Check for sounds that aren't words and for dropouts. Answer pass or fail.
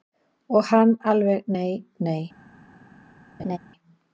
fail